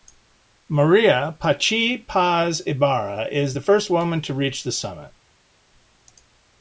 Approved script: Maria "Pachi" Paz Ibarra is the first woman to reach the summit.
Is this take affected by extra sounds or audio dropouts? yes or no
no